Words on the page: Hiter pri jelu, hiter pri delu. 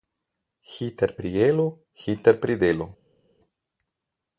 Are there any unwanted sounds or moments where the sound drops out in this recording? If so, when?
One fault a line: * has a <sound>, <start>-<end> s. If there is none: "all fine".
all fine